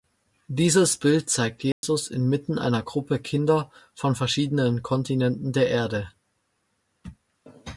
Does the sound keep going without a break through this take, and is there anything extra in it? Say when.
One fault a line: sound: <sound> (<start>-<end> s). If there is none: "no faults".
sound: dropout (1.7-1.8 s)